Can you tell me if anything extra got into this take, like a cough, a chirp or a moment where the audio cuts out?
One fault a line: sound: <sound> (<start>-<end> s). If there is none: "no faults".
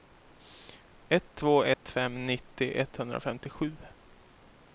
sound: dropout (1.7-1.8 s)